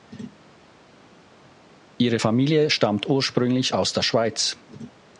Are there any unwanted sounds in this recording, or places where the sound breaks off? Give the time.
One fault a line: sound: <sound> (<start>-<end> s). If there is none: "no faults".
no faults